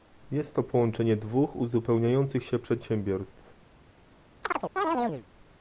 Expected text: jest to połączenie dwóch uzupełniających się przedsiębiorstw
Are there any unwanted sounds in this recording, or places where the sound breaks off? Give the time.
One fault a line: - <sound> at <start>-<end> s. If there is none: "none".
- chirp at 4.4-5.3 s